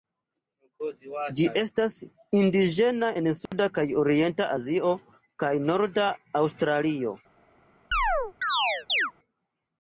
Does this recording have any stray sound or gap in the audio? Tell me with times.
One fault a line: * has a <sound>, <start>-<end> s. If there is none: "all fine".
* has a dropout, 3.5-3.5 s
* has a chirp, 7.9-9.1 s